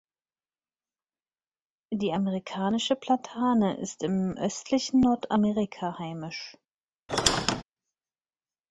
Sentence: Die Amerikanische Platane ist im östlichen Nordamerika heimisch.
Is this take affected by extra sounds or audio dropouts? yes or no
yes